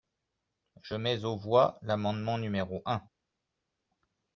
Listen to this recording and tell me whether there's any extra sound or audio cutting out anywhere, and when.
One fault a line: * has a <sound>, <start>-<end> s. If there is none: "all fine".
all fine